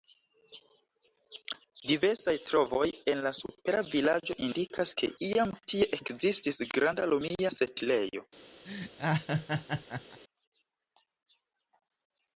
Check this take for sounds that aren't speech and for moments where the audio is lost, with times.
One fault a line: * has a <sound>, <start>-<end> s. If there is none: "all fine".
* has a laugh, 8.6-10.2 s